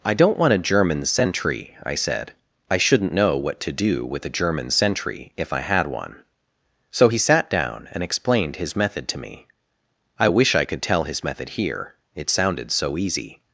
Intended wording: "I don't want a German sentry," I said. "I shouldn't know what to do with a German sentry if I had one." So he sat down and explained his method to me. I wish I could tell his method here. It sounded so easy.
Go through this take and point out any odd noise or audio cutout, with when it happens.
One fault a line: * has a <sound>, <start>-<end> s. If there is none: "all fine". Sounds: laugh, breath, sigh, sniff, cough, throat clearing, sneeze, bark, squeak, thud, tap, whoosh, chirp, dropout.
all fine